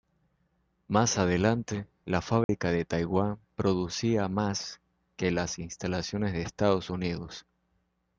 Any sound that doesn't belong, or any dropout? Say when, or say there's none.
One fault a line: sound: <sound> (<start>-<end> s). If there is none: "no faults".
sound: dropout (2.4-2.5 s)